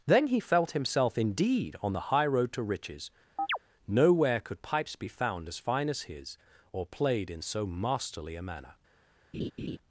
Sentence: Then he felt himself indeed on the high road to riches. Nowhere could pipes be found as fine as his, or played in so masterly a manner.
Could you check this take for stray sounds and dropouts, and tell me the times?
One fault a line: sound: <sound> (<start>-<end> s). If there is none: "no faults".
sound: chirp (3.4-3.6 s)
sound: laugh (9.3-9.8 s)